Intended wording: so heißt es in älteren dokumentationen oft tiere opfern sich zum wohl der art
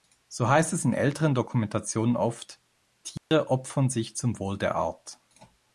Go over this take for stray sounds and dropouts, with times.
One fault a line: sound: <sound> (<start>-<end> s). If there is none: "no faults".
sound: dropout (3.2-3.3 s)